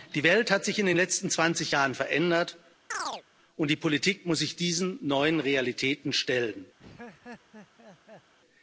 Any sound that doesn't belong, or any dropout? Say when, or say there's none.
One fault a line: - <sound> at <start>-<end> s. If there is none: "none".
- chirp at 2.9-3.2 s
- laugh at 6.8-8.3 s